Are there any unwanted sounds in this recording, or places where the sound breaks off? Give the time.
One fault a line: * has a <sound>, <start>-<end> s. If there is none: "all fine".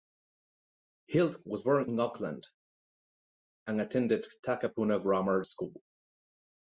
all fine